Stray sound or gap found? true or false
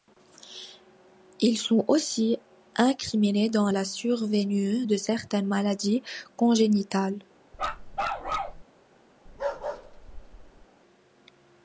true